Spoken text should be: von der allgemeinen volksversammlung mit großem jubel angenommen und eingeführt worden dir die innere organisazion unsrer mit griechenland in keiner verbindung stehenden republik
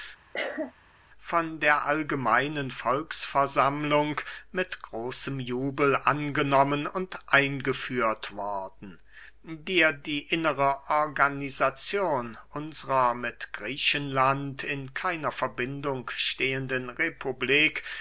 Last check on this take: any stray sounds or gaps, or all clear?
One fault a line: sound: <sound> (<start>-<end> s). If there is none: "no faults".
sound: cough (0.3-0.7 s)